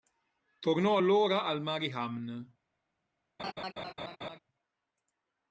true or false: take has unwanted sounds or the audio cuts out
true